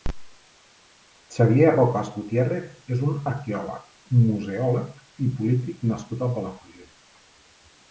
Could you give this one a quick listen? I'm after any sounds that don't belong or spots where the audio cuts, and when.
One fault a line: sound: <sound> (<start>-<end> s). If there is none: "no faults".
no faults